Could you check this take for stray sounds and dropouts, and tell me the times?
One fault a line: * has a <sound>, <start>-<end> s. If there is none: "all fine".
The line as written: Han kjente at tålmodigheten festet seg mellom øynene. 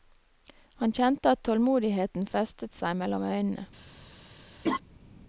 * has a laugh, 4.6-4.8 s